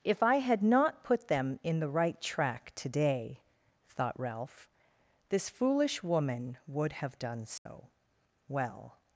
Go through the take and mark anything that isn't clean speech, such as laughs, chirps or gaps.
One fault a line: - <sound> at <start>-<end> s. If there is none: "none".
- dropout at 7.6-7.7 s